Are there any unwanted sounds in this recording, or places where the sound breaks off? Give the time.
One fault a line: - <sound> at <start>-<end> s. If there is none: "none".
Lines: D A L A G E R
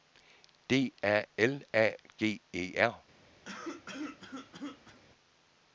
- cough at 3.5-5.0 s